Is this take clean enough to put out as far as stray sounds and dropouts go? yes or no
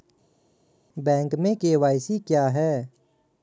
yes